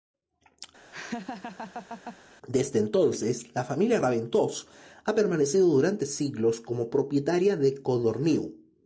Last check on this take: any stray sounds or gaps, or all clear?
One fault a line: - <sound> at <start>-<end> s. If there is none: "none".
- laugh at 0.9-2.2 s